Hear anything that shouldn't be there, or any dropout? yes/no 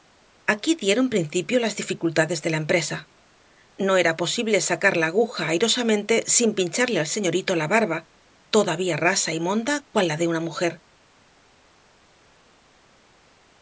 no